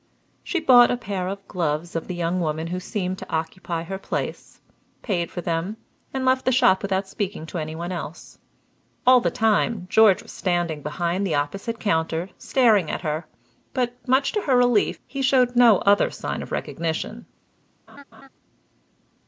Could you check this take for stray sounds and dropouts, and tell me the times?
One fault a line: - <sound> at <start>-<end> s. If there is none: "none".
- laugh at 17.9-18.3 s